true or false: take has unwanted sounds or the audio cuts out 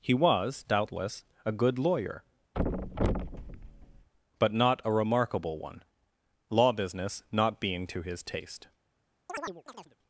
true